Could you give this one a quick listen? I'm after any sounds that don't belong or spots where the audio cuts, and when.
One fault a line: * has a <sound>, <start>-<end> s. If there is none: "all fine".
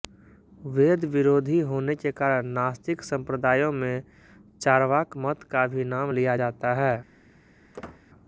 * has a squeak, 7.7-8.0 s